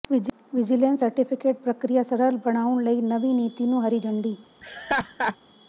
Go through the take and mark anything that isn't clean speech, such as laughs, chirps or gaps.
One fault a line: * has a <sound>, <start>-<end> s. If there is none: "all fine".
* has a laugh, 4.6-5.4 s